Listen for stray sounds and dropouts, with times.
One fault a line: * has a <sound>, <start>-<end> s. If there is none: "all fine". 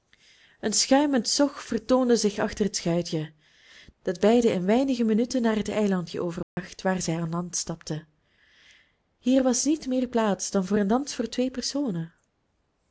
* has a dropout, 6.4-6.6 s